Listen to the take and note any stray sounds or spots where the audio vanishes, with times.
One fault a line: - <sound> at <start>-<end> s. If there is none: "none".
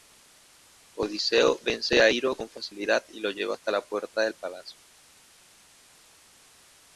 none